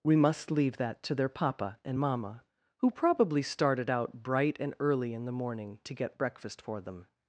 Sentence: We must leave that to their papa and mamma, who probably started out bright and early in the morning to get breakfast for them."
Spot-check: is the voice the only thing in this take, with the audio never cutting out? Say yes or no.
yes